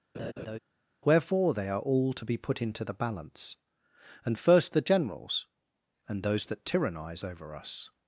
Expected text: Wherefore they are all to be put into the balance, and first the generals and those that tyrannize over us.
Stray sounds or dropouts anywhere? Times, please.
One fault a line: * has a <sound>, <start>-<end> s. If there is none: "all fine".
* has a laugh, 0.1-0.6 s